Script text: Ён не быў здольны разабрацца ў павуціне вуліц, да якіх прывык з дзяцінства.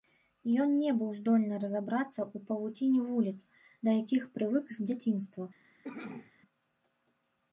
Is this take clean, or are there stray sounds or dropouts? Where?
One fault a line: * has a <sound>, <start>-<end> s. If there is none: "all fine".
* has a cough, 5.8-6.3 s